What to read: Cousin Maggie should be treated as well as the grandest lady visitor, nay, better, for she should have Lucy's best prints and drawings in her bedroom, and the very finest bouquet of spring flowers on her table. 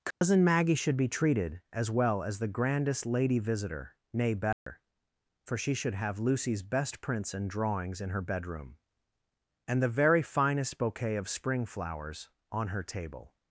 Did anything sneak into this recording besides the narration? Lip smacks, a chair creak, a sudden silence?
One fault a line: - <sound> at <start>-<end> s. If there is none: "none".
- dropout at 0.1-0.2 s
- dropout at 4.5-4.7 s